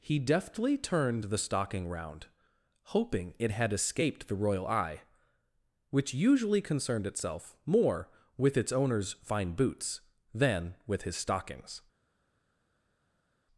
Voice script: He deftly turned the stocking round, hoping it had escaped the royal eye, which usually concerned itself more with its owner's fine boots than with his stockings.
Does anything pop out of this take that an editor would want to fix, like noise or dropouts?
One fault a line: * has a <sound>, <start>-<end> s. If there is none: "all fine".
all fine